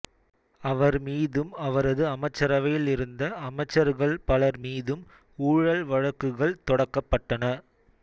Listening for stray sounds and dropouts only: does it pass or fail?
pass